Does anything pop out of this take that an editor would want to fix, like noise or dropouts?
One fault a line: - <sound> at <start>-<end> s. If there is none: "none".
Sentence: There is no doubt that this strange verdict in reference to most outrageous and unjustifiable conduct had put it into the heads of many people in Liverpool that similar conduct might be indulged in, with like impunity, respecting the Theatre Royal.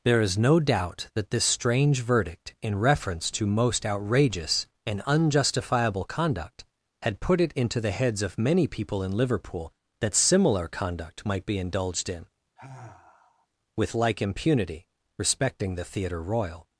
- sigh at 12.6-13.5 s